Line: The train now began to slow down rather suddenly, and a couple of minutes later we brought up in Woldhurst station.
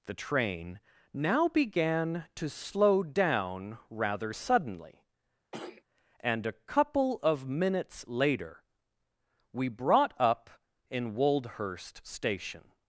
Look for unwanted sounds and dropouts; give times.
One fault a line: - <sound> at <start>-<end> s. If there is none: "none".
- throat clearing at 5.5-5.8 s